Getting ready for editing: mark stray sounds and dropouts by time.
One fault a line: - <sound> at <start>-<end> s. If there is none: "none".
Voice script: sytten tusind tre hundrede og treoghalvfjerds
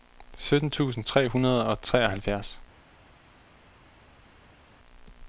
none